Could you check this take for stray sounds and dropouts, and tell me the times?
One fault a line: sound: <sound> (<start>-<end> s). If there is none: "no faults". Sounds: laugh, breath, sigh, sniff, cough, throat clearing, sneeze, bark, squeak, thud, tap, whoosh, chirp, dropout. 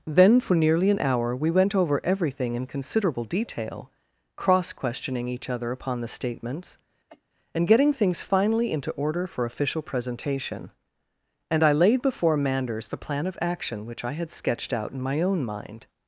sound: cough (7.1-7.2 s)